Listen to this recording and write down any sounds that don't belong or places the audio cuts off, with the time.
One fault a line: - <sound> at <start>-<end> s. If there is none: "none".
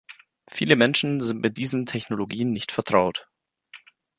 none